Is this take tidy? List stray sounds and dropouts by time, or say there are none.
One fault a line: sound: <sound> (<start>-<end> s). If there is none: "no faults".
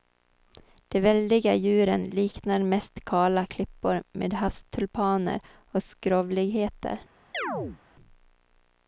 sound: chirp (7.3-7.8 s)